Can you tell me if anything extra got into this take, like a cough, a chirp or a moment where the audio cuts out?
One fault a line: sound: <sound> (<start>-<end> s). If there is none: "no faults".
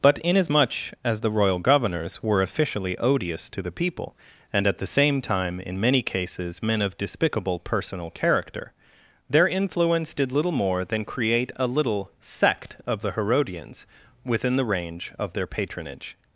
no faults